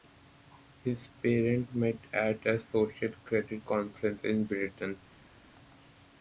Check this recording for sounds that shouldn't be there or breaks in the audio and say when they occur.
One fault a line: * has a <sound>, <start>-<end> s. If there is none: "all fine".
all fine